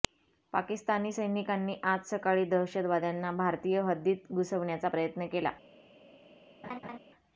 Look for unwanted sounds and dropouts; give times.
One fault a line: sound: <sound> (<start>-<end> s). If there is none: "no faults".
sound: laugh (6.6-7.0 s)